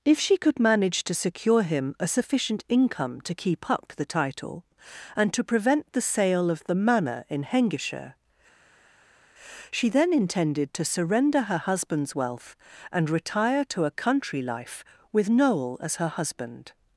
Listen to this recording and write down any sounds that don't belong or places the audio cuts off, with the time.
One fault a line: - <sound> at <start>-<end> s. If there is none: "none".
none